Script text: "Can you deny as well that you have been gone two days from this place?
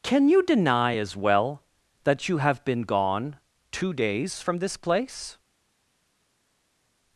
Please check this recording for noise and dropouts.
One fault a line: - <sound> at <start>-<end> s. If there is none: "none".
none